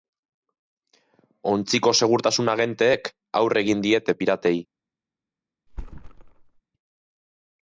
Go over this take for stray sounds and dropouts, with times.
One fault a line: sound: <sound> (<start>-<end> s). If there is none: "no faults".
sound: thud (5.7-6.6 s)